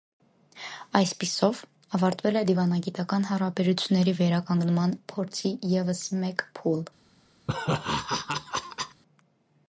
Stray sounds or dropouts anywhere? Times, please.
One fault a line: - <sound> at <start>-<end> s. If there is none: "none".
- laugh at 7.5-9.0 s